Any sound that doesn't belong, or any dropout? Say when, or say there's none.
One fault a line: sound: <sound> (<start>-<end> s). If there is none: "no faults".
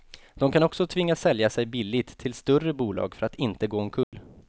sound: dropout (4.0-4.1 s)